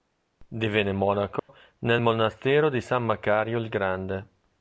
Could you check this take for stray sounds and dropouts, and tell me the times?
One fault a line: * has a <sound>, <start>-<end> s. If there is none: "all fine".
* has a dropout, 1.4-1.5 s